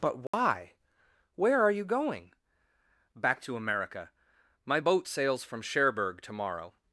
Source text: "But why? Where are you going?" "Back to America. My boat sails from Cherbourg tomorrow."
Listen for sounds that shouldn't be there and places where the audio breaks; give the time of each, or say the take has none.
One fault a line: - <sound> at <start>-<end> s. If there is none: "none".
- dropout at 0.3-0.3 s